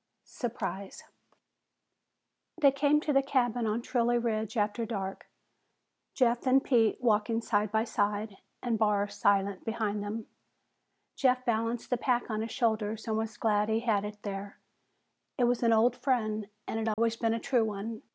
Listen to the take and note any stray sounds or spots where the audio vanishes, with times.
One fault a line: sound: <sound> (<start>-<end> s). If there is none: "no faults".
sound: dropout (16.9-17.0 s)